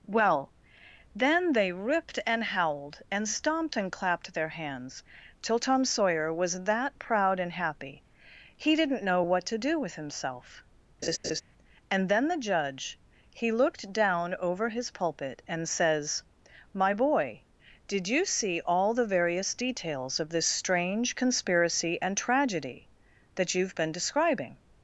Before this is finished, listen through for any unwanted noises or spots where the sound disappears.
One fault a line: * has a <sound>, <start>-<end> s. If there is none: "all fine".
* has a laugh, 11.0-11.4 s